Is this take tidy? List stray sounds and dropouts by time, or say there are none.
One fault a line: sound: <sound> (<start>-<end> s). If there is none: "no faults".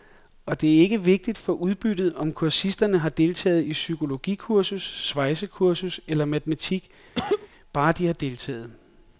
sound: cough (7.2-7.5 s)